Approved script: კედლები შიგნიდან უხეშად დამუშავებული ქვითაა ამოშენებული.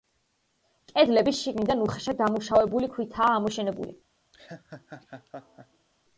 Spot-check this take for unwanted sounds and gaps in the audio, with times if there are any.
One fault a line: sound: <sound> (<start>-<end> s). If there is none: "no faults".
sound: laugh (4.3-5.9 s)